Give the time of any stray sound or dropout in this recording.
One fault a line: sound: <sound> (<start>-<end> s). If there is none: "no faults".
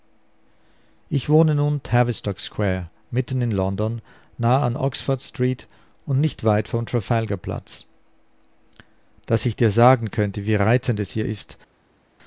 no faults